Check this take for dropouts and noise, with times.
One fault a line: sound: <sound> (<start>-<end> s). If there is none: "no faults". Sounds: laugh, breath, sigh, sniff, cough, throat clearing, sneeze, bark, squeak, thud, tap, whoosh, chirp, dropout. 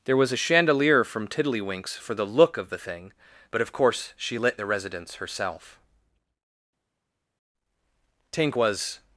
no faults